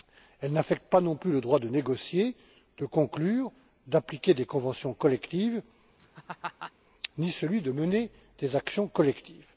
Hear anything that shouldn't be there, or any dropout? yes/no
yes